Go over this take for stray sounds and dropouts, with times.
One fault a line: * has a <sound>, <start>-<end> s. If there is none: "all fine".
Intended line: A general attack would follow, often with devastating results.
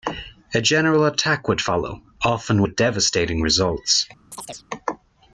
* has a chirp, 4.3-4.6 s